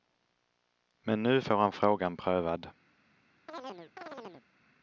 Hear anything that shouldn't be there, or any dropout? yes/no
yes